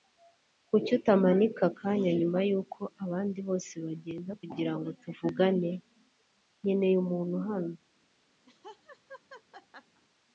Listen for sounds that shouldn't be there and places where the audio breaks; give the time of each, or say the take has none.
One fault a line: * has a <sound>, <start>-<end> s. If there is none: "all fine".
* has a laugh, 8.5-10.0 s